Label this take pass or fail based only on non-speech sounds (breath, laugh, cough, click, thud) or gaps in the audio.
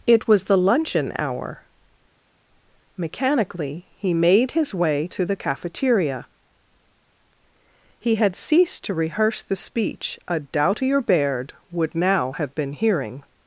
pass